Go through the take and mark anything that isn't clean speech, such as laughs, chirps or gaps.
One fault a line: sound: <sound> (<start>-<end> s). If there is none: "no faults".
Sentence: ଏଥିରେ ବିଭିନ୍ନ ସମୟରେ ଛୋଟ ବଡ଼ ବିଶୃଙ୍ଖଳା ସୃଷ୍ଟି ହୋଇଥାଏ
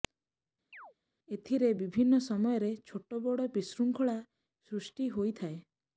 sound: chirp (0.7-0.9 s)